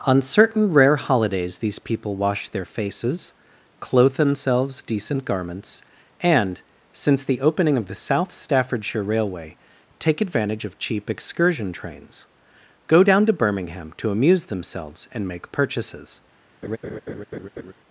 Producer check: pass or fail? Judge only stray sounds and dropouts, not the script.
fail